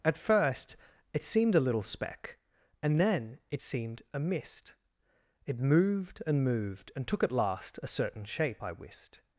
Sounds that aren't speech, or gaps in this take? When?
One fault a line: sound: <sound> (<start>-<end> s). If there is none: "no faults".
no faults